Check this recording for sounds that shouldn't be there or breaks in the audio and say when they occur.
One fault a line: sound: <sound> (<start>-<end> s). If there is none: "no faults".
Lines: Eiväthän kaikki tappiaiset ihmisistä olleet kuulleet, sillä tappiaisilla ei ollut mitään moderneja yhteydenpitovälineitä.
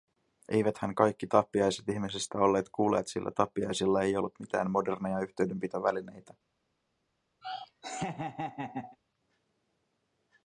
sound: laugh (7.4-9.0 s)